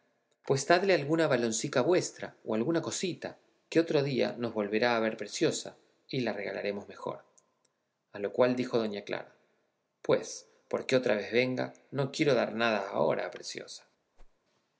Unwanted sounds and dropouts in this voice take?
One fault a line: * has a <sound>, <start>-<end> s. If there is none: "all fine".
* has a whoosh, 14.2-14.4 s